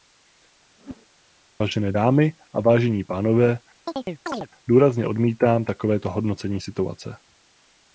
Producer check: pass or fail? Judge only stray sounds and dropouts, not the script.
fail